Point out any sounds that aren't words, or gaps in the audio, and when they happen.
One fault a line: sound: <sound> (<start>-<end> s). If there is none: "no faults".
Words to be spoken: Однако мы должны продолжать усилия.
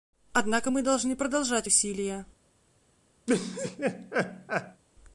sound: laugh (3.3-4.8 s)